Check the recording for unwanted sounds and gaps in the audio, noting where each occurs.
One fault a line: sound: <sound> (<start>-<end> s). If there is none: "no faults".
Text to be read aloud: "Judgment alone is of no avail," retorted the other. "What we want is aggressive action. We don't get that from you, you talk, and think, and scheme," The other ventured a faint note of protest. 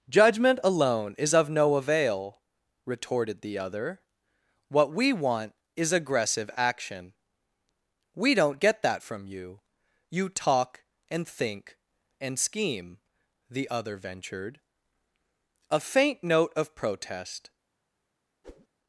sound: whoosh (18.4-18.7 s)